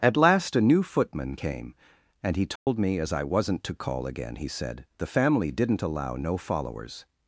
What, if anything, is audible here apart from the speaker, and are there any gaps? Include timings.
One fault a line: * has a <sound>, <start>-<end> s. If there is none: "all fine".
* has a dropout, 2.6-2.7 s